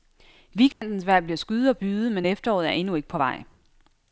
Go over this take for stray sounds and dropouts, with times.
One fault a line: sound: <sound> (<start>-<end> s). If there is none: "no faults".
sound: dropout (0.7-0.8 s)